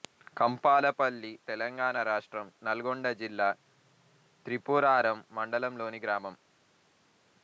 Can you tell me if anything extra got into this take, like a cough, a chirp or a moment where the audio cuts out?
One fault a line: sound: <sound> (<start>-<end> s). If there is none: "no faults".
no faults